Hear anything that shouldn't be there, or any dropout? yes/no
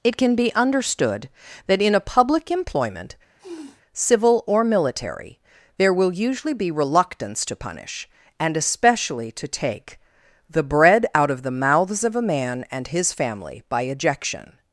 yes